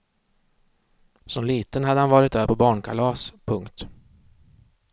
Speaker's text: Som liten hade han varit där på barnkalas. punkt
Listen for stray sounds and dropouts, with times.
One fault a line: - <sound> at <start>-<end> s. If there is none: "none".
none